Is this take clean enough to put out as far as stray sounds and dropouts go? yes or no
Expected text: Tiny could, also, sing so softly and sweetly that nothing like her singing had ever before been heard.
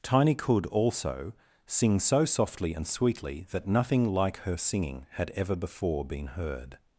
yes